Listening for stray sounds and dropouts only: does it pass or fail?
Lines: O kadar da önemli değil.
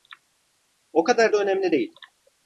pass